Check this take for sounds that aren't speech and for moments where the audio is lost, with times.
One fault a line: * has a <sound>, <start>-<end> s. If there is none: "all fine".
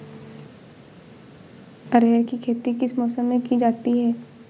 all fine